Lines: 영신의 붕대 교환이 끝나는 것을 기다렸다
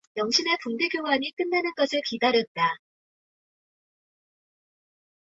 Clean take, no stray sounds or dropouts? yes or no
yes